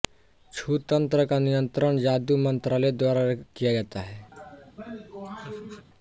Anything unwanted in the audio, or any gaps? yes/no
yes